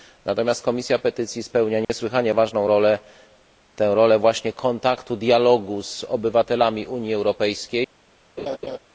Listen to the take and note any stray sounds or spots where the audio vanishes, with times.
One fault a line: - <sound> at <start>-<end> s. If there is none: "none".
- dropout at 1.8-1.9 s
- laugh at 8.4-8.8 s